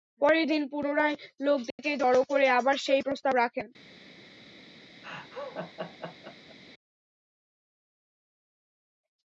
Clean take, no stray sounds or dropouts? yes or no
no